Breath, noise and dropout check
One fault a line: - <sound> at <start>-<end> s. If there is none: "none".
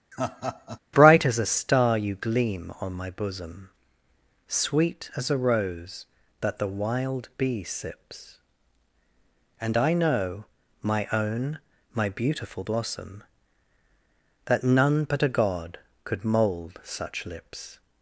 - laugh at 0.1-0.8 s